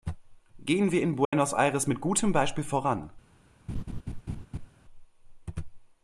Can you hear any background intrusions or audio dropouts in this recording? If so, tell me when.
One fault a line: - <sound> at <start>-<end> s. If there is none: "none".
- dropout at 1.2-1.3 s
- laugh at 3.7-4.7 s